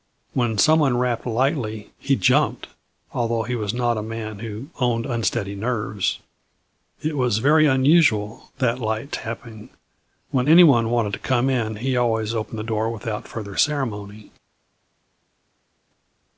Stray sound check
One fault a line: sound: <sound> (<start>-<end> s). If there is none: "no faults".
no faults